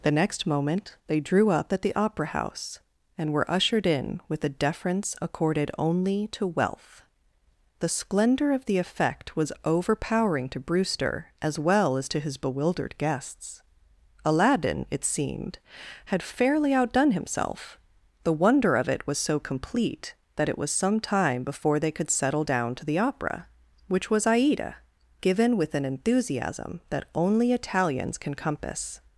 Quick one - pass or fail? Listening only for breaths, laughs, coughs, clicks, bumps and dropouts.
pass